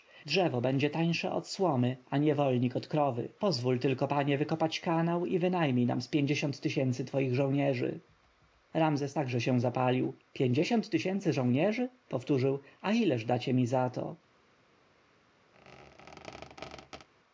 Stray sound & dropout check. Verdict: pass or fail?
fail